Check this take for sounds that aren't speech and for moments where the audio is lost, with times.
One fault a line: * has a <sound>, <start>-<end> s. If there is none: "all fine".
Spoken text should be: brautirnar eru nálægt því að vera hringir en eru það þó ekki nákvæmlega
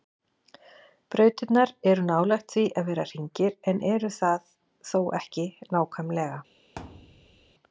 * has a thud, 6.8-7.5 s